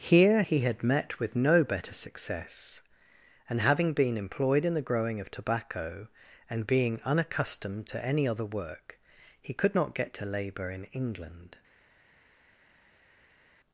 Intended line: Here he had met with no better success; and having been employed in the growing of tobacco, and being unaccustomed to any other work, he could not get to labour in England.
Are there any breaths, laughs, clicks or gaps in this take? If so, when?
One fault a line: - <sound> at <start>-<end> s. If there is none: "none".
none